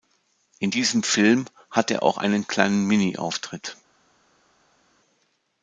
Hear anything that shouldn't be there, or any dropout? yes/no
no